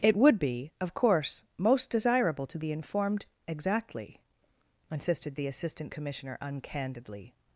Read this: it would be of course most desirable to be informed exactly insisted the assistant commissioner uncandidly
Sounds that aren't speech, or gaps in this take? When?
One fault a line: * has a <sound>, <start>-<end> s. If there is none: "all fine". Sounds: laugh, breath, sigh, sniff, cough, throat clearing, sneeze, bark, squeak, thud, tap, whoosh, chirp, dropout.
all fine